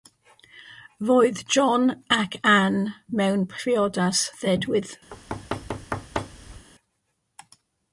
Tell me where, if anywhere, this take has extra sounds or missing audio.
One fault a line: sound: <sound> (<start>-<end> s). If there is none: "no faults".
sound: thud (5.1-6.7 s)